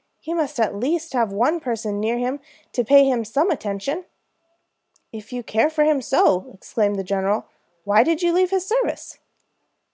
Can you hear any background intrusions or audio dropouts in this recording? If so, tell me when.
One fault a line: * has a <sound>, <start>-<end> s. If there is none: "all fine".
all fine